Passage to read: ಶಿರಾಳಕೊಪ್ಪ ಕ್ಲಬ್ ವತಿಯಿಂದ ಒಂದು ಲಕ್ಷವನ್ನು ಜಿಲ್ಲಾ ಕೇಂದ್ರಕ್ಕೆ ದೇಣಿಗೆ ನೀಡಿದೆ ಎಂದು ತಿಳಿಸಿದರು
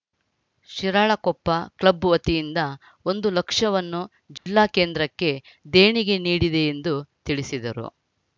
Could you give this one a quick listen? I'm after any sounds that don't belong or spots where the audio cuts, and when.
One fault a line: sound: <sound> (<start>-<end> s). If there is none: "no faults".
sound: dropout (4.4-4.5 s)